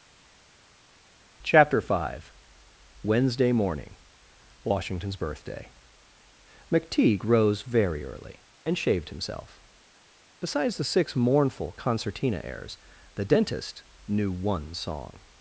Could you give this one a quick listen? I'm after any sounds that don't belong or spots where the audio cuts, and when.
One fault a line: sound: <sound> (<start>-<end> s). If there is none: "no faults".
no faults